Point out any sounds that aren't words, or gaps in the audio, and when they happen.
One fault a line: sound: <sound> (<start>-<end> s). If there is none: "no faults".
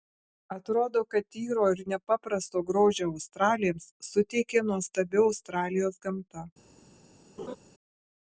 sound: laugh (7.4-7.6 s)